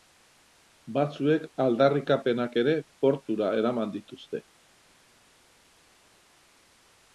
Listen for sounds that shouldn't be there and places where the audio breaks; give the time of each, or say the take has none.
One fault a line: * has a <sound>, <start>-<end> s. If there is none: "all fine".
all fine